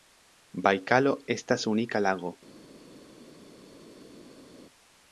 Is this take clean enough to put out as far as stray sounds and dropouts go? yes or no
yes